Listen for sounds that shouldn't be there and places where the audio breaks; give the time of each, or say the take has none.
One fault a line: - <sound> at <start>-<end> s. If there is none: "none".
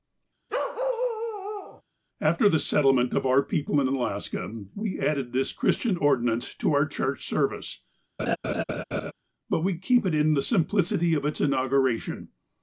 - bark at 0.5-1.8 s
- laugh at 8.2-9.1 s